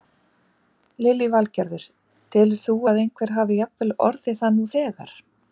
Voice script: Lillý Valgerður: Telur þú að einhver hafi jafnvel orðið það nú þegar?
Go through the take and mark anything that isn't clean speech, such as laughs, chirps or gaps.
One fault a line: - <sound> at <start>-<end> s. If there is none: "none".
none